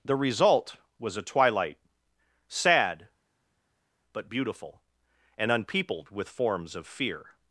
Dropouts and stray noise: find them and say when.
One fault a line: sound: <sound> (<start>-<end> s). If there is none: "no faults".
no faults